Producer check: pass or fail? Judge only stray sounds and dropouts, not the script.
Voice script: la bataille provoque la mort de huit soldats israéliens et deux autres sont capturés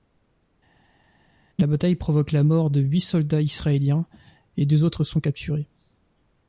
pass